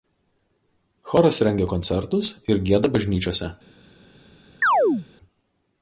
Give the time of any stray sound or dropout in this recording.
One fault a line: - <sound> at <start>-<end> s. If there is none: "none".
- chirp at 4.6-5.1 s